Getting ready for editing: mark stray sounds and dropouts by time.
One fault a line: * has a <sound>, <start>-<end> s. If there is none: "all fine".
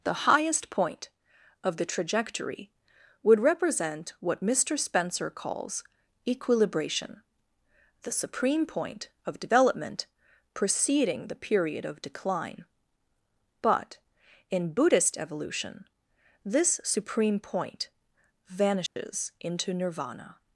* has a dropout, 18.9-19.0 s